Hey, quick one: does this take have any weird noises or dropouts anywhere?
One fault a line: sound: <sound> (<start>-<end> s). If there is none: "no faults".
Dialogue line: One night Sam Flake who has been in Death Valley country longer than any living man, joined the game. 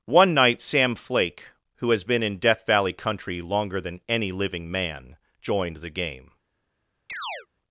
sound: chirp (7.1-7.5 s)